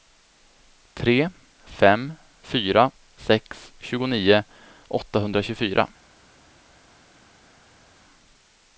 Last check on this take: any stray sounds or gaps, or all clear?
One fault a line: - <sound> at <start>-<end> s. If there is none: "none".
none